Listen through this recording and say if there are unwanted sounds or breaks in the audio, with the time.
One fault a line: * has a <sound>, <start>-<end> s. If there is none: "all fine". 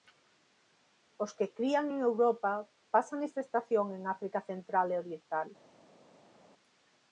all fine